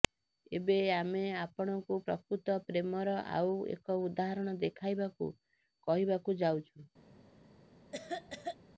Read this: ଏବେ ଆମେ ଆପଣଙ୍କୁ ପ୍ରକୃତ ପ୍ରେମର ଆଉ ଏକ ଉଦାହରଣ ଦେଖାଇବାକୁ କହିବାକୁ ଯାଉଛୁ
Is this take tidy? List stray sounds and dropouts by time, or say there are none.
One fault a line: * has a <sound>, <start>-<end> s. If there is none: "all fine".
* has a cough, 7.9-8.6 s